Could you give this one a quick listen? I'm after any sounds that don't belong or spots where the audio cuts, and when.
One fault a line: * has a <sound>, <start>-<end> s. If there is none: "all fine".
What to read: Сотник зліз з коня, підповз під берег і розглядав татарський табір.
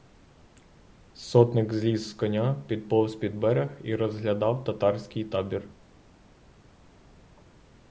all fine